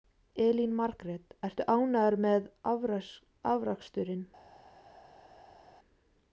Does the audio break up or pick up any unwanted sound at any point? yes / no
no